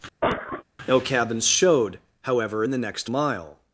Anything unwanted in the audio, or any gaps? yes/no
yes